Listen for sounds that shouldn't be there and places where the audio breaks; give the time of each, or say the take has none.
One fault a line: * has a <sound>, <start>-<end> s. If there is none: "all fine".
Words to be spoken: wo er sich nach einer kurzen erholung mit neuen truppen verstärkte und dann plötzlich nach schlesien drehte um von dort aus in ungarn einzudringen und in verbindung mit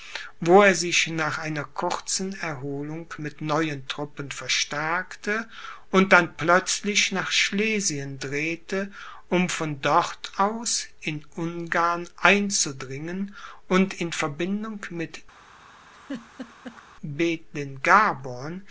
* has a laugh, 15.9-16.8 s